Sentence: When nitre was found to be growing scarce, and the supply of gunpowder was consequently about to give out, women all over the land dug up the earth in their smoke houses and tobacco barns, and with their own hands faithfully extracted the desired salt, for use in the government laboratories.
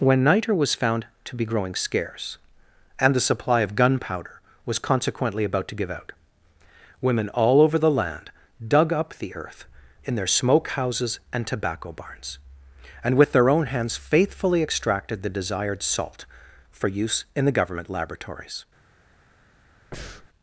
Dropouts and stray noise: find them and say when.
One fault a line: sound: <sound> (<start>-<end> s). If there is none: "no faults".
sound: breath (19.9-20.3 s)